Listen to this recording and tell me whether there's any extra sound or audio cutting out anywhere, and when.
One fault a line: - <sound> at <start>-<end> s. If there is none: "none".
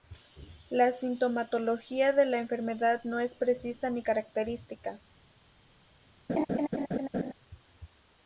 - laugh at 6.3-7.3 s